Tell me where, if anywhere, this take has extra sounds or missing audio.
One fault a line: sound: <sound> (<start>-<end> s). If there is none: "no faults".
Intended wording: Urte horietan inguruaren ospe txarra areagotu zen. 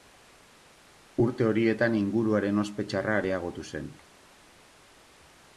no faults